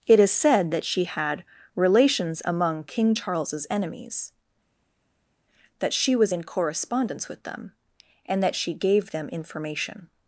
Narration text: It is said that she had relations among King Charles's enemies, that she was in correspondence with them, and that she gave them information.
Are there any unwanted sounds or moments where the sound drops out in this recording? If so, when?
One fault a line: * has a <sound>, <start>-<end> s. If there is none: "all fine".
all fine